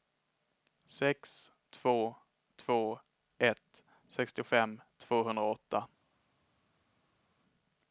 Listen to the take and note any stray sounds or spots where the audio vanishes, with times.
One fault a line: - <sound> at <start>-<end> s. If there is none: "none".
none